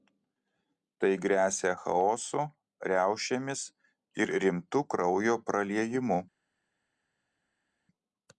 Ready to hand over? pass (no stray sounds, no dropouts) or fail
pass